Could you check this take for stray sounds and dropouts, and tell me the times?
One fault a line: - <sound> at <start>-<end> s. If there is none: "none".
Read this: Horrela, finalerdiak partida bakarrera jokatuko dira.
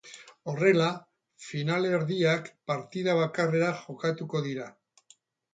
none